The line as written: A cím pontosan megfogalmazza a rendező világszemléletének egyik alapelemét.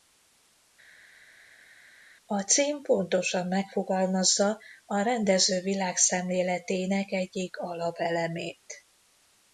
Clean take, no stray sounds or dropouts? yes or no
yes